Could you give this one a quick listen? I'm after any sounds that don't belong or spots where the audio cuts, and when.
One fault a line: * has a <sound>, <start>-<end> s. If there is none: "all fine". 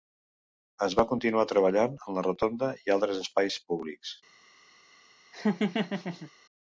* has a laugh, 5.3-6.3 s